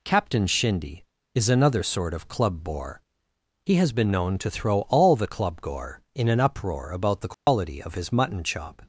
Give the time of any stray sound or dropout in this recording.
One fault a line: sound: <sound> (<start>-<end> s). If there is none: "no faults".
sound: dropout (7.3-7.5 s)